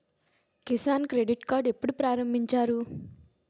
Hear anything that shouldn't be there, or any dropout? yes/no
no